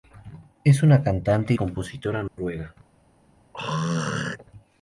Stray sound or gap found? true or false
true